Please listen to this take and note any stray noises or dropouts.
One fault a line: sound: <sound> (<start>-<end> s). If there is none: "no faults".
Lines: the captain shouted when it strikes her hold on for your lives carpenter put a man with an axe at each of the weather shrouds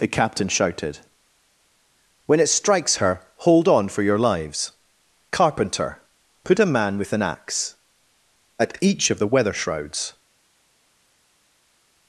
no faults